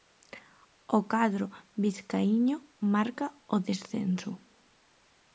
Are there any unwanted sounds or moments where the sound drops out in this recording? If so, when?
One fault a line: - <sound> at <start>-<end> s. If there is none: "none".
none